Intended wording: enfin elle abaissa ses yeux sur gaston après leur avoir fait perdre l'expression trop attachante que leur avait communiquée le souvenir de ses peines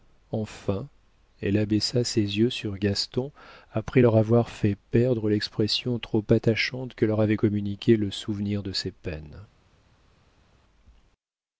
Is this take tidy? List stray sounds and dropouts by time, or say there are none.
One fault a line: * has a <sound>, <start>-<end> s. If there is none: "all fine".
all fine